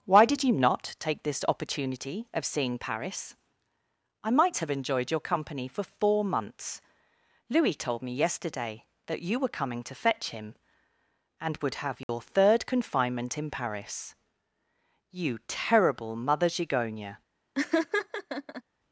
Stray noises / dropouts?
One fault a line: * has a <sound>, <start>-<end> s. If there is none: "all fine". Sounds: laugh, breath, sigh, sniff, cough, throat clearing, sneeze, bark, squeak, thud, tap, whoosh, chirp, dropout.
* has a dropout, 12.0-12.1 s
* has a laugh, 17.5-18.6 s